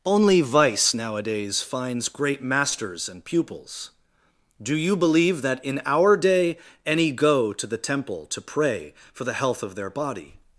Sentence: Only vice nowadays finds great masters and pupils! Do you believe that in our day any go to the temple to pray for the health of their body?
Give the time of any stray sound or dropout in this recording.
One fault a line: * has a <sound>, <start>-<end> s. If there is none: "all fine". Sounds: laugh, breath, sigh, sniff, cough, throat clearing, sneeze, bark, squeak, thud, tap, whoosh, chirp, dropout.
all fine